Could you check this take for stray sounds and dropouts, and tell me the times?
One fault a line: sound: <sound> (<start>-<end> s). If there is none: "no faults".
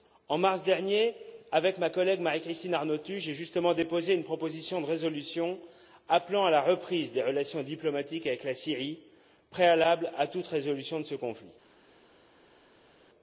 no faults